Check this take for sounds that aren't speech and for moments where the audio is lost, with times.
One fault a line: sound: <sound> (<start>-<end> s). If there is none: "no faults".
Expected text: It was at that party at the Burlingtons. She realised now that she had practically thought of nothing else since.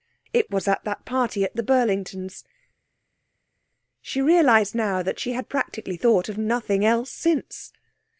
no faults